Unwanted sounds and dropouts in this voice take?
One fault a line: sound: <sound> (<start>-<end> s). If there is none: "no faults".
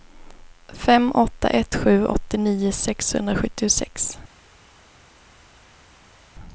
no faults